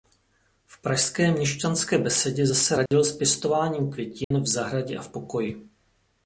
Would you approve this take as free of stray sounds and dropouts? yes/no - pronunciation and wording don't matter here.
no